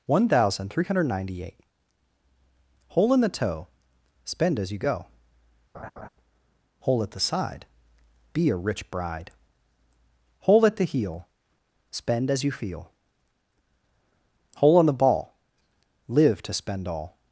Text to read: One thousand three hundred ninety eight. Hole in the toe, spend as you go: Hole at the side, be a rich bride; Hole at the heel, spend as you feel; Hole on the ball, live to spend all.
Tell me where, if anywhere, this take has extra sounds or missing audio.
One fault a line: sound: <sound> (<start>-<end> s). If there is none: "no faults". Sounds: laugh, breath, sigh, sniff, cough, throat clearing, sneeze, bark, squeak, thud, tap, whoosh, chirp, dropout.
sound: laugh (5.7-6.1 s)